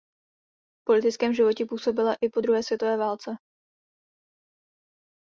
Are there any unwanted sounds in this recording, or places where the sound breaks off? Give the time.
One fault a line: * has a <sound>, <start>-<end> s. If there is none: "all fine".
all fine